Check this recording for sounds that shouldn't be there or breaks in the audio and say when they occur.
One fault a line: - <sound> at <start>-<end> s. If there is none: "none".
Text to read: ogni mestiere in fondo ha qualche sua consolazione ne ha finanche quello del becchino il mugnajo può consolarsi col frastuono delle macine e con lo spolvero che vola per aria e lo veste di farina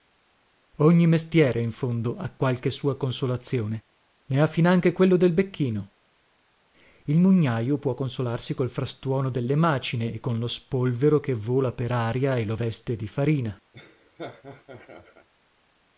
- laugh at 13.7-15.3 s